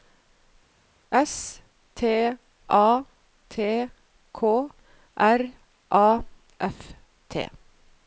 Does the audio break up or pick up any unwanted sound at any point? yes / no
no